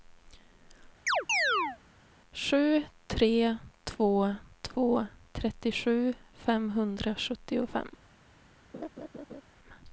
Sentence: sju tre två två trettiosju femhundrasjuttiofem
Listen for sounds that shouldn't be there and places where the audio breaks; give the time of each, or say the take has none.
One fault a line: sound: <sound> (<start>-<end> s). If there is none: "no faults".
sound: chirp (1.1-1.8 s)
sound: laugh (8.7-9.4 s)